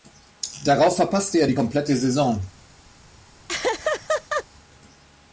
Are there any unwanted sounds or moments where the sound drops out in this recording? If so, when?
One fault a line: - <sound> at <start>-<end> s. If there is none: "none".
- laugh at 3.5-4.4 s